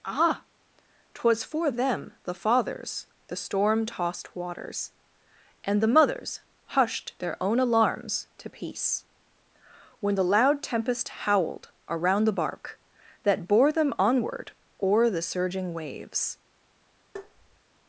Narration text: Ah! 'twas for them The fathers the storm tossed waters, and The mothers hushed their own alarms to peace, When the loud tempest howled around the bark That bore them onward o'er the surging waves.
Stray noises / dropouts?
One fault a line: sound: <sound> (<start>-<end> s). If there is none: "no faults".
sound: tap (17.2-17.6 s)